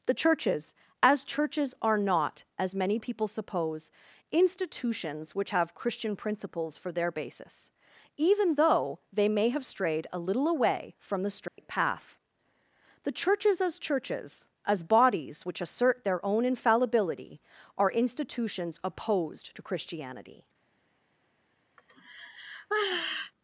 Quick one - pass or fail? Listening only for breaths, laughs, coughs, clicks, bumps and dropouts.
fail